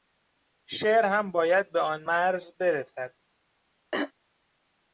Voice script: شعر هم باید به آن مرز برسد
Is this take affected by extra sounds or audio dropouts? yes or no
yes